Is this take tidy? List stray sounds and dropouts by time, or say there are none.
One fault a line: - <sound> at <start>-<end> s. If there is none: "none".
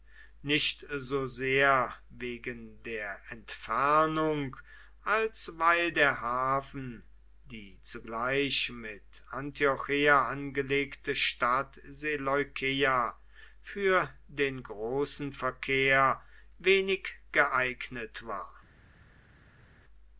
none